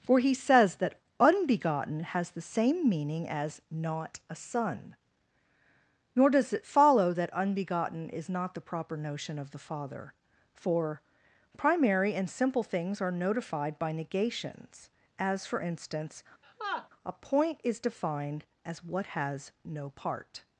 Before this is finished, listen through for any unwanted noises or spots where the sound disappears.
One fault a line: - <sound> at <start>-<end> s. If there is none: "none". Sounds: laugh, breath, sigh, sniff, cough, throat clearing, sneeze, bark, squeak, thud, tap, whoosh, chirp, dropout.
- laugh at 16.4-16.9 s